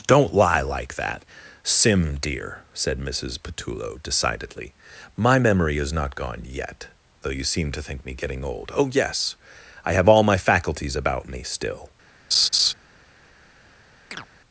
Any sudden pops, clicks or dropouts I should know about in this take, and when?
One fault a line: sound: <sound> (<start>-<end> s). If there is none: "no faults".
sound: laugh (12.3-12.7 s)
sound: chirp (14.1-14.3 s)